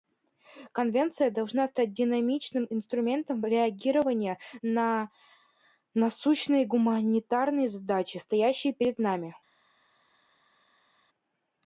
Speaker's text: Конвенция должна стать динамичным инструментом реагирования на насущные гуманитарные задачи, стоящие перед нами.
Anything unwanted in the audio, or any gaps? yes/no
no